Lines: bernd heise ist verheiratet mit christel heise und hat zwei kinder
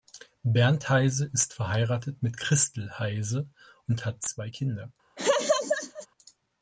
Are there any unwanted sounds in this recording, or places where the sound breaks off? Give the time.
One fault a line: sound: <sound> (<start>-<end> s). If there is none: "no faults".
sound: laugh (5.2-6.1 s)